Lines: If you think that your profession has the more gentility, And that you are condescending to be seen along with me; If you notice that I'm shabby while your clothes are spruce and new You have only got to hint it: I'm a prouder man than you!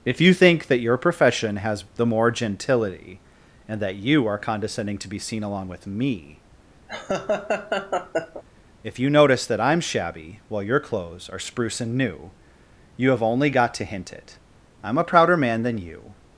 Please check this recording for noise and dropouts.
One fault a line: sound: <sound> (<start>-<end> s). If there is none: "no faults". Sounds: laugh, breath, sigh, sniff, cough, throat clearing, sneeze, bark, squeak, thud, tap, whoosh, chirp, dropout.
sound: laugh (6.9-8.4 s)